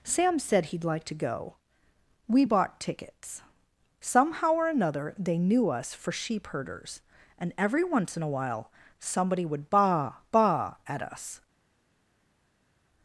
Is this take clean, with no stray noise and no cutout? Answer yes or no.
yes